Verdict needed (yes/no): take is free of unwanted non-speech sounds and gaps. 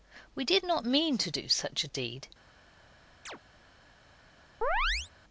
no